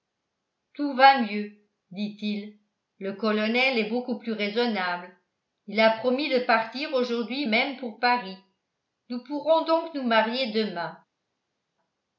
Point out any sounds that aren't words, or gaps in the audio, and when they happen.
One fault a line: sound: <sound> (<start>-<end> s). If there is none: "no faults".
no faults